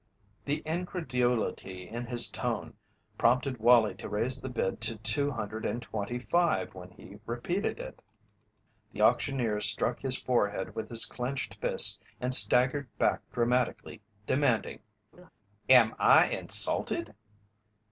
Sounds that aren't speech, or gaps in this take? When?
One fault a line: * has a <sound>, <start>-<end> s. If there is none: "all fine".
* has a laugh, 15.1-15.3 s